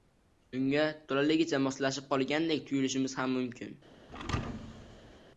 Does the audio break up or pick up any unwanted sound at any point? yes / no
yes